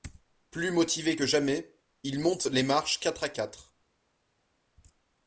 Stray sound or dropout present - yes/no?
no